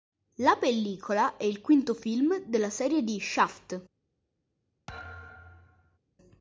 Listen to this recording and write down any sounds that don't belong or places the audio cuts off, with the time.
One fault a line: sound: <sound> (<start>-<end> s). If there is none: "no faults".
sound: thud (4.9-6.0 s)